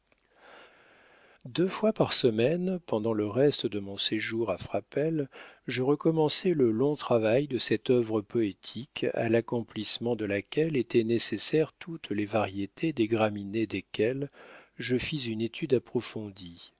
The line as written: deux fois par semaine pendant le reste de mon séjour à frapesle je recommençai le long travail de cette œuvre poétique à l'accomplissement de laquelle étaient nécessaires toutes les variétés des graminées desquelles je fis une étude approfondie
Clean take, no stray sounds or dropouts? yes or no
yes